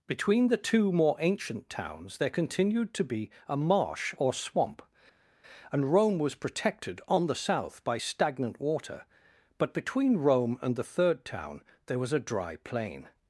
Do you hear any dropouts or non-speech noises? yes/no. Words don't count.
no